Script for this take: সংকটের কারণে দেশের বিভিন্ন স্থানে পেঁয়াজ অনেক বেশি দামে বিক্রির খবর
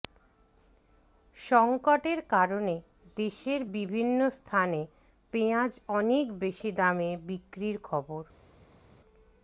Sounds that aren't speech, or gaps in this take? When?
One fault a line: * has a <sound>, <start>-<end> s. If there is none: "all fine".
all fine